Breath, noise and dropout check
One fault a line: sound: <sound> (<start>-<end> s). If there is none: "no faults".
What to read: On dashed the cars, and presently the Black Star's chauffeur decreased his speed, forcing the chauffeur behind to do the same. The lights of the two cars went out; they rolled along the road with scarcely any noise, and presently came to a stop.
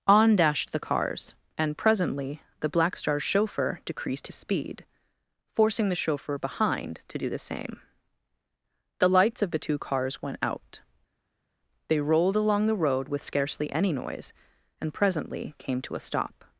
no faults